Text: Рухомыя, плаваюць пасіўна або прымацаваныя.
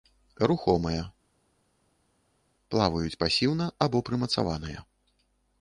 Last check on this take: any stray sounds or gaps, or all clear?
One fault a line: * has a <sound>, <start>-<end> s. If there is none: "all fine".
all fine